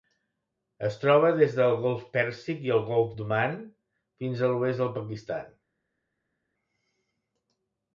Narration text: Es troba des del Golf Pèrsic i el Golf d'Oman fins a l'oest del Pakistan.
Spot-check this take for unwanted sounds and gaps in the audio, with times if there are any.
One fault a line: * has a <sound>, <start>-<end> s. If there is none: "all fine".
all fine